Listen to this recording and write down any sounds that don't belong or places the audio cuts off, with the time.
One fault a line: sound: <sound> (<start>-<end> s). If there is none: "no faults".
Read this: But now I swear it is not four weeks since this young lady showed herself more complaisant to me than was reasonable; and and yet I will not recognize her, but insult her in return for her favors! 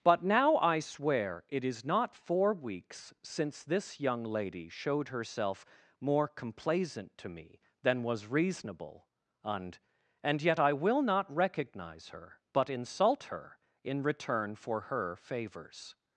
no faults